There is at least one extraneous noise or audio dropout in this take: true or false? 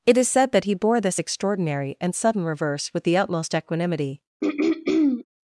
true